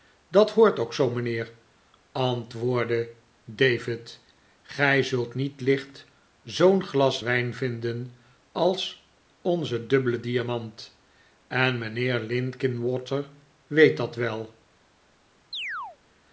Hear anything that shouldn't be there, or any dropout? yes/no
yes